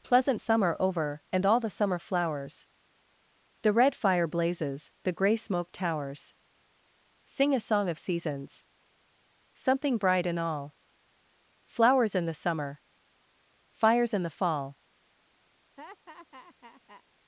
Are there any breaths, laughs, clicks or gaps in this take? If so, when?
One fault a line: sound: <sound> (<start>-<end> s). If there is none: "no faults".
sound: laugh (15.8-17.0 s)